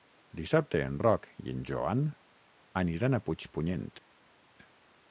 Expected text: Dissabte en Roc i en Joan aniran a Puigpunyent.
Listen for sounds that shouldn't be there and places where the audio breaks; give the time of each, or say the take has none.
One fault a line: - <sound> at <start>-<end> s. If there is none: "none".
none